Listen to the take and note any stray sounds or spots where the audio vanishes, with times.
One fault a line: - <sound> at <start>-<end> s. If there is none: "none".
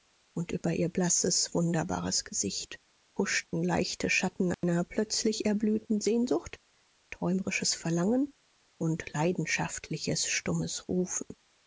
- dropout at 4.5-4.6 s